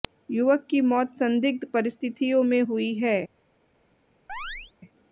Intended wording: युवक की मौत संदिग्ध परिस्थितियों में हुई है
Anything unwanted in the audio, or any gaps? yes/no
yes